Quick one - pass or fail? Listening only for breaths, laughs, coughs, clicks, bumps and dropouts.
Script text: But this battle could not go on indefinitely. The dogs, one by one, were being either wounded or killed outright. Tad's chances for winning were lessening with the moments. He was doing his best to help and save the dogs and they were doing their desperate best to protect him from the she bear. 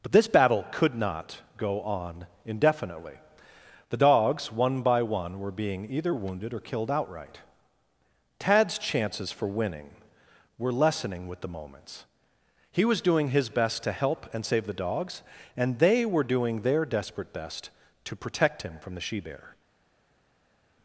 pass